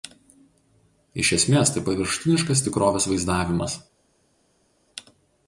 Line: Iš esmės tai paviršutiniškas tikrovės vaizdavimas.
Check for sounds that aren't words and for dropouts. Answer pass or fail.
pass